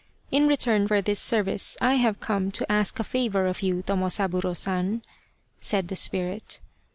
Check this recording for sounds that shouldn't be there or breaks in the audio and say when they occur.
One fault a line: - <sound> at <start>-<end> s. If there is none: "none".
none